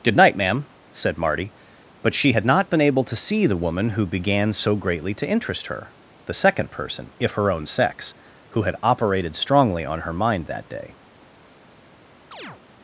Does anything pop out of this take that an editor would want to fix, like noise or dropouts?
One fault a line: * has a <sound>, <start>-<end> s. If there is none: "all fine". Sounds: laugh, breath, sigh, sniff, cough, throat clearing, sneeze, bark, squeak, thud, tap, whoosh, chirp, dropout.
* has a chirp, 12.3-12.6 s